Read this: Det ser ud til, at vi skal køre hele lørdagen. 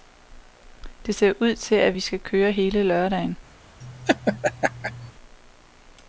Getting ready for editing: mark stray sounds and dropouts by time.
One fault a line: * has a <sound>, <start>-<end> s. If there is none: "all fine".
* has a laugh, 3.8-5.1 s